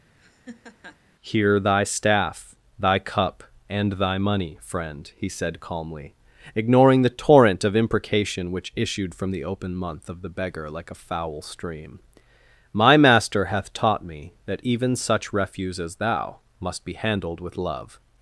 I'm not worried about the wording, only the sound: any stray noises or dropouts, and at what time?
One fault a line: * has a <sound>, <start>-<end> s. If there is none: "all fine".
* has a laugh, 0.2-1.0 s